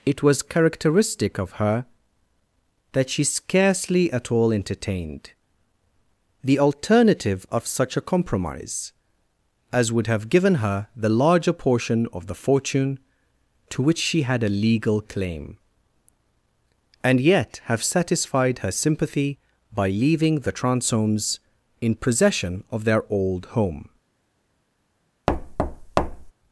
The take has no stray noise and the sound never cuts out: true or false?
false